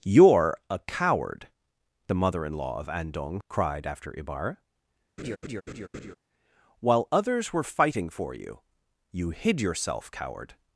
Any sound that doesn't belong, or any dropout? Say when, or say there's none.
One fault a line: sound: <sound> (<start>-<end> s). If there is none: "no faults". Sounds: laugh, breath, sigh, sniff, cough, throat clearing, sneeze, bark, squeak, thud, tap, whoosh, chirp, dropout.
sound: laugh (5.2-6.1 s)